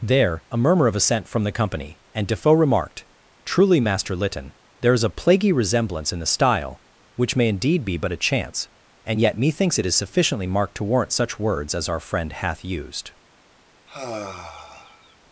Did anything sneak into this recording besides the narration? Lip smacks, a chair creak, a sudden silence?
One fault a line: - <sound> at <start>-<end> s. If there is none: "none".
- sigh at 13.9-15.2 s